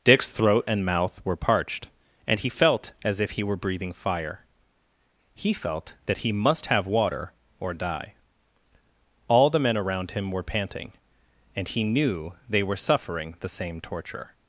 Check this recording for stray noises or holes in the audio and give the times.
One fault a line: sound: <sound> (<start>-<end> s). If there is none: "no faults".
no faults